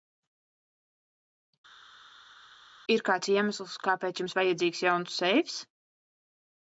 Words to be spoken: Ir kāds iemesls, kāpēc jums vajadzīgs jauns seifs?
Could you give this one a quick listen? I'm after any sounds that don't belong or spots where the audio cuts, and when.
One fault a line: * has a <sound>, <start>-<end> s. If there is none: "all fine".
all fine